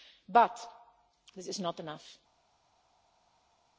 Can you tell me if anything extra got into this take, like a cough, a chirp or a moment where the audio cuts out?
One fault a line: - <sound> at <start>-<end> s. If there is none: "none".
none